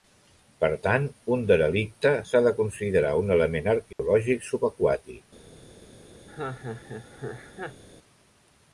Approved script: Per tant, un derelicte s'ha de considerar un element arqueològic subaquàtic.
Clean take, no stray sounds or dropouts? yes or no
no